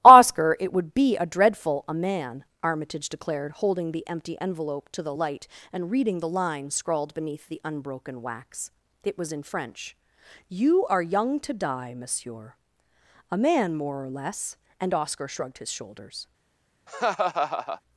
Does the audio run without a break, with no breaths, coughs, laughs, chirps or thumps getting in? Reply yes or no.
no